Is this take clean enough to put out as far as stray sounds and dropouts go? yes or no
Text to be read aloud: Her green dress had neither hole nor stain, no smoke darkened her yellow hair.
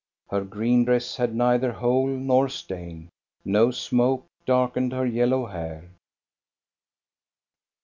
yes